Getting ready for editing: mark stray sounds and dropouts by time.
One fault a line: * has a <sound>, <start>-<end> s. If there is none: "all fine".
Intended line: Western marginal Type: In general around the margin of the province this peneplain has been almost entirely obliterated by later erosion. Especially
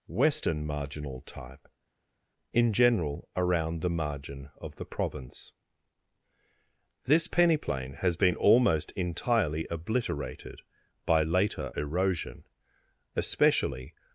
all fine